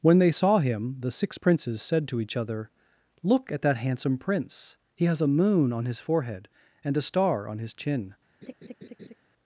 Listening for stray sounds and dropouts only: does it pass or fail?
fail